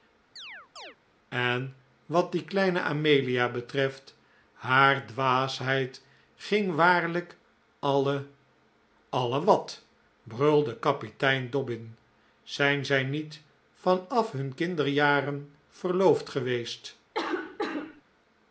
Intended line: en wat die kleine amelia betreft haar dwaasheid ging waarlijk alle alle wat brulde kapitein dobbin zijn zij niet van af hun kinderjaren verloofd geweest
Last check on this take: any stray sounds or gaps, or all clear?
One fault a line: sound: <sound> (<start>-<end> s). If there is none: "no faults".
sound: chirp (0.4-1.0 s)
sound: cough (17.1-18.0 s)